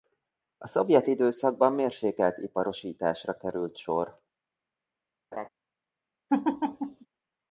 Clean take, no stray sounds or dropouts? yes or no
no